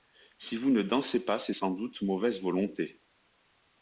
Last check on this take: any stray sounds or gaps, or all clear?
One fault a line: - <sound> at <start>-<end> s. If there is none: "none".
none